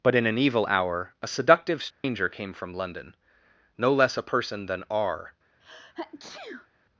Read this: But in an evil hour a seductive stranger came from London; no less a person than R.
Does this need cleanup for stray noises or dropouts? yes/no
yes